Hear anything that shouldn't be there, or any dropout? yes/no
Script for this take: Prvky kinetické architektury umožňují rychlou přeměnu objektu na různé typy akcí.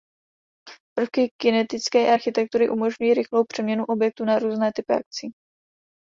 no